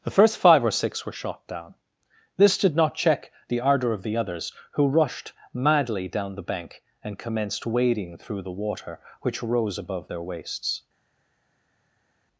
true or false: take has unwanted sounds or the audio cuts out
false